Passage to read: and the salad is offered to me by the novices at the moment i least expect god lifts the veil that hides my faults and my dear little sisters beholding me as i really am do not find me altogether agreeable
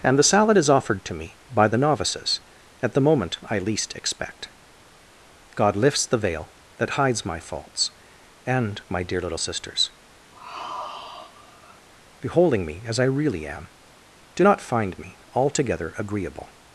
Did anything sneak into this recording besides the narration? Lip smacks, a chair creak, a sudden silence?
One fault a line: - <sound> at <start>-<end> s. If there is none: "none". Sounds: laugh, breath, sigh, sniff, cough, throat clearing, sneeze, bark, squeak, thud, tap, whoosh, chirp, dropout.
- sigh at 10.3-11.9 s